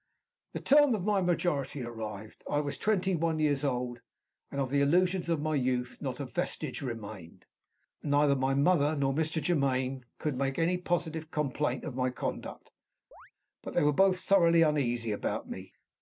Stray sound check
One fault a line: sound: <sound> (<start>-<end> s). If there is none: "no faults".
sound: chirp (13.1-13.3 s)